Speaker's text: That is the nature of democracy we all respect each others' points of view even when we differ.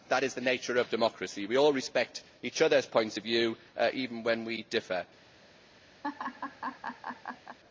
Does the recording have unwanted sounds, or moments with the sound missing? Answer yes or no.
yes